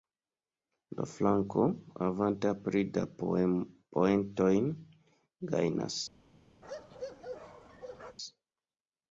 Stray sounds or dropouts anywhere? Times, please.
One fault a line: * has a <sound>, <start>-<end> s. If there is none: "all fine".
* has a bark, 6.6-8.2 s